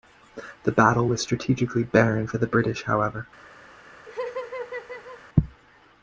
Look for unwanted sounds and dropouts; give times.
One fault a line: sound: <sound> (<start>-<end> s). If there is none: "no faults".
sound: laugh (4.1-5.2 s)